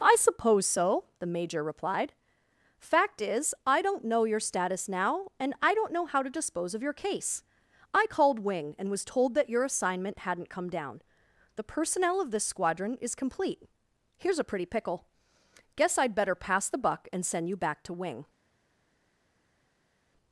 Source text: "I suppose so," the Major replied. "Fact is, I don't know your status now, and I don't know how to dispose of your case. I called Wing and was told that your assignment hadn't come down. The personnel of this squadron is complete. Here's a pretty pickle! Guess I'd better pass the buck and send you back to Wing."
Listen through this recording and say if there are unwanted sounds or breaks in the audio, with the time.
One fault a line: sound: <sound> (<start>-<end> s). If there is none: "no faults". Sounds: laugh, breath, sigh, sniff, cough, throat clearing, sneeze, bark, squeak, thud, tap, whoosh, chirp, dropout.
no faults